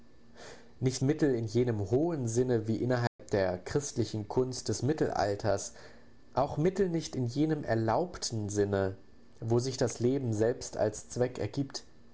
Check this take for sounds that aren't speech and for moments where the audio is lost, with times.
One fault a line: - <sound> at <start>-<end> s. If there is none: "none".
- dropout at 3.1-3.2 s